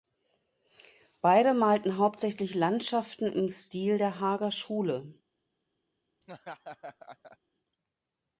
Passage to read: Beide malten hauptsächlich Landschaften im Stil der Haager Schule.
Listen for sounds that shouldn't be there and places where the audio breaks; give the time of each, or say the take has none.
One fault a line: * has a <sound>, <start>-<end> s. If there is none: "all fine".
* has a laugh, 6.2-7.4 s